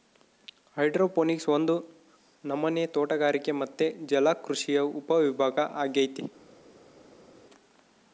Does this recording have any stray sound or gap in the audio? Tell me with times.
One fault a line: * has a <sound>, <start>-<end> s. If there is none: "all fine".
all fine